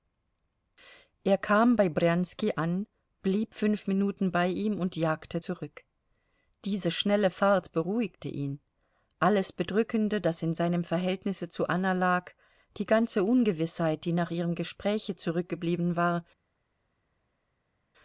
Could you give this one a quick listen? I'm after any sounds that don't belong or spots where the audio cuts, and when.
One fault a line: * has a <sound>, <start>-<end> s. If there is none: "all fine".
all fine